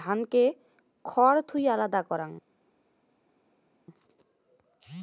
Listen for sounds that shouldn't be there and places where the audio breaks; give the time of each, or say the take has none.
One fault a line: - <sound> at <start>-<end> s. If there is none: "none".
none